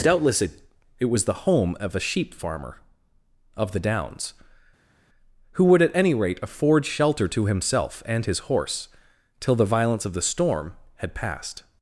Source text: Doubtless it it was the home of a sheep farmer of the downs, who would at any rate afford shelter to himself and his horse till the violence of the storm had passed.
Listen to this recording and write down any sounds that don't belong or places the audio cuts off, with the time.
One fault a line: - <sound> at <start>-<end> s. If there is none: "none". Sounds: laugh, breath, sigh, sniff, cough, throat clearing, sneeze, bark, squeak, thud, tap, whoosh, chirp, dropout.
none